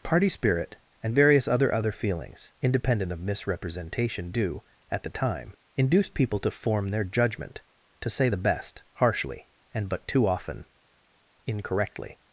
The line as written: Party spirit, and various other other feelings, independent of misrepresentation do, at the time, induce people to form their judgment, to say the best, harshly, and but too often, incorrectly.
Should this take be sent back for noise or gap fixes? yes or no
no